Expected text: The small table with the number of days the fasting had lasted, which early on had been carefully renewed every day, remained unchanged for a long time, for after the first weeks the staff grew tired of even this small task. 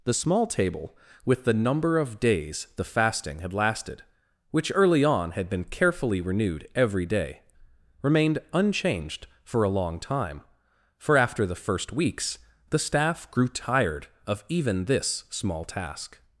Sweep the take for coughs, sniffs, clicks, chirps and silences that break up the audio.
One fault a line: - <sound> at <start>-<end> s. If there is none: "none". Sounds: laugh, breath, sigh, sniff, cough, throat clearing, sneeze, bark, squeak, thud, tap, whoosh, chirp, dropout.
none